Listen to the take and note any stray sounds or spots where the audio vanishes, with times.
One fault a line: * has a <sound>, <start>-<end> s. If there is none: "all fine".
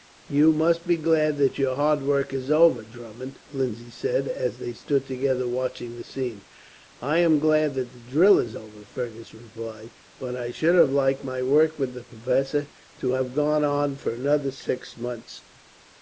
all fine